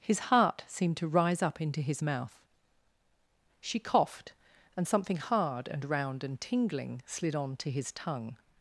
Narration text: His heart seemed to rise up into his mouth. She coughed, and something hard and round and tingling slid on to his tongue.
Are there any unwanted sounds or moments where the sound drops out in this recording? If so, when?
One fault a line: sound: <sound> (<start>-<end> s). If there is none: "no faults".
no faults